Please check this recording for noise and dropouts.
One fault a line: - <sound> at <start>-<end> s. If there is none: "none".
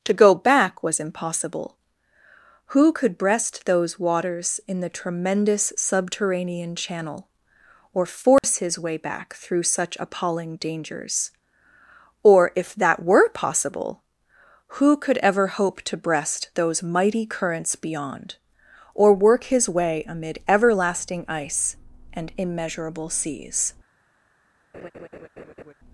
- dropout at 8.4-8.4 s
- laugh at 24.7-25.7 s